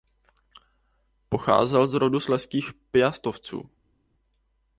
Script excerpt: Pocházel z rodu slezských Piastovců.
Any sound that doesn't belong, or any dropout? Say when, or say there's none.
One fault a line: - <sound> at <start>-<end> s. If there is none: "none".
none